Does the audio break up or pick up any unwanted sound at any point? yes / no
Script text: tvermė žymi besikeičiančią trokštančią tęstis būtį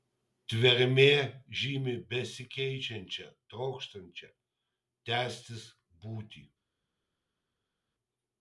no